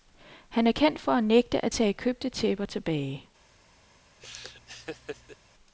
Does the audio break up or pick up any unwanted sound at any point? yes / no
yes